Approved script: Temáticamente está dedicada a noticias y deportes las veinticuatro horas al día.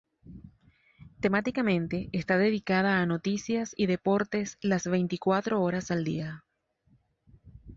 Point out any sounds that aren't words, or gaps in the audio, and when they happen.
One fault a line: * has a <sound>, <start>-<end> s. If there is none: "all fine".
all fine